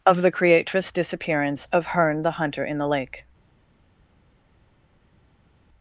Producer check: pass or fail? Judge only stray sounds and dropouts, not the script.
pass